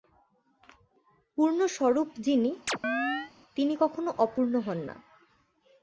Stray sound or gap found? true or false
true